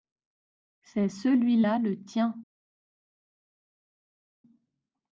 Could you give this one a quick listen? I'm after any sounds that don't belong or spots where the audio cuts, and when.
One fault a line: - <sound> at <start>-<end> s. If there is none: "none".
none